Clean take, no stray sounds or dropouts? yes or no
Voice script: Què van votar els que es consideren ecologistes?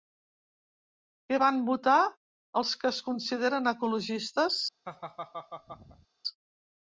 no